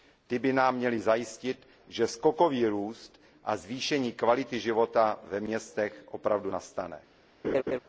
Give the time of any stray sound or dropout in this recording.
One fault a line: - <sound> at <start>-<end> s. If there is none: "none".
- laugh at 7.4-7.8 s